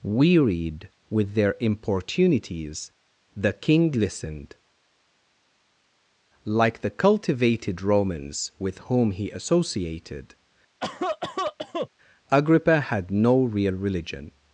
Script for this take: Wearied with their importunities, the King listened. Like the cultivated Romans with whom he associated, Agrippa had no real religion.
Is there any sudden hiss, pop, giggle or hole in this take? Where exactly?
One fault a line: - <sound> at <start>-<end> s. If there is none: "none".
- cough at 10.8-11.9 s